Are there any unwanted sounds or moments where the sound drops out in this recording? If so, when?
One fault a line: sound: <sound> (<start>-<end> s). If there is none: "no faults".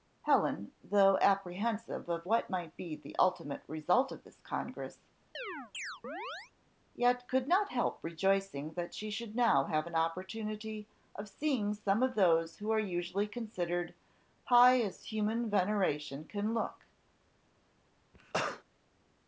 sound: chirp (5.3-6.5 s)
sound: cough (18.1-18.6 s)